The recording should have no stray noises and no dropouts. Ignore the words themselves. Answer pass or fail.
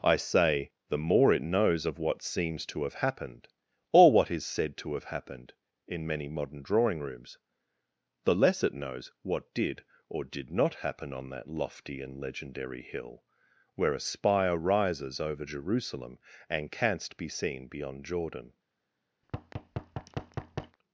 fail